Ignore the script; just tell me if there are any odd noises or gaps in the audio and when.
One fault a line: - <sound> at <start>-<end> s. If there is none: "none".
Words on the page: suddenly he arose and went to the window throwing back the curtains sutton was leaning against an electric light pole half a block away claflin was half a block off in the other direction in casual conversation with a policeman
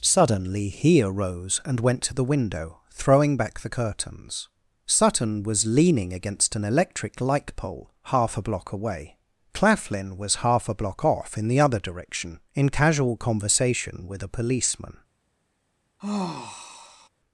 - sigh at 16.0-17.1 s